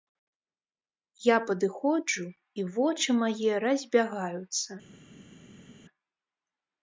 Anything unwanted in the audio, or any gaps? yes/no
no